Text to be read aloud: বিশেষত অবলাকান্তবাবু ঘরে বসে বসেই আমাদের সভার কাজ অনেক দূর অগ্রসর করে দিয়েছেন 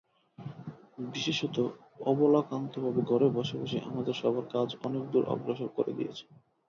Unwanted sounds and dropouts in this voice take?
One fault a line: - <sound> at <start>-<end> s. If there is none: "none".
none